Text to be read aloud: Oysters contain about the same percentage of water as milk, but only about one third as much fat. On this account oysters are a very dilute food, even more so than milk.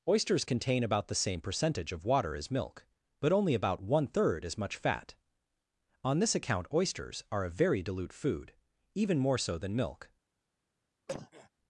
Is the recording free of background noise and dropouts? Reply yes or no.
no